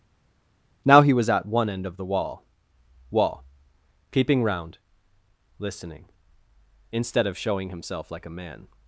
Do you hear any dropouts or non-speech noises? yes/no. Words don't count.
no